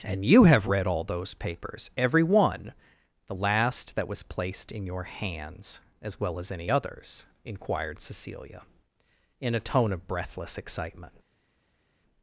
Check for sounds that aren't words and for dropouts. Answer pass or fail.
pass